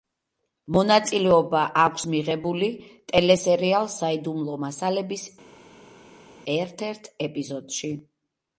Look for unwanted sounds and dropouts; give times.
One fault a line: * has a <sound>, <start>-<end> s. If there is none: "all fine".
all fine